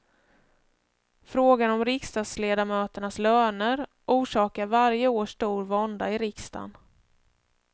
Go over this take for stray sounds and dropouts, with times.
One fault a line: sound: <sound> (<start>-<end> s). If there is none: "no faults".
no faults